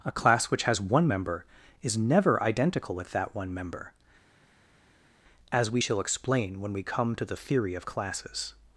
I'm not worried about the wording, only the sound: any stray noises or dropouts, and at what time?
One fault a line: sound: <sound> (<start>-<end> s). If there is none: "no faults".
no faults